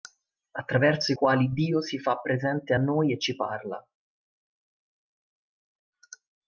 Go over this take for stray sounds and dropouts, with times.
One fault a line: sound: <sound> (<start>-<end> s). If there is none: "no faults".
no faults